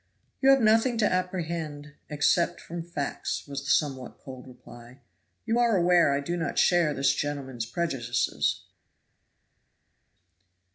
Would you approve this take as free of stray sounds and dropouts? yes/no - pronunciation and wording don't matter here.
yes